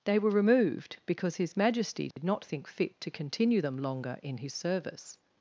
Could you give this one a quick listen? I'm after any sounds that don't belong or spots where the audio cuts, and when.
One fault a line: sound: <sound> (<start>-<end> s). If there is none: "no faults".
sound: dropout (2.1-2.2 s)